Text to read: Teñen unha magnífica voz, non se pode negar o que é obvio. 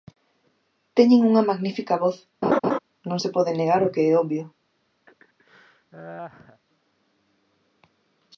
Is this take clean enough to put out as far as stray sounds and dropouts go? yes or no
no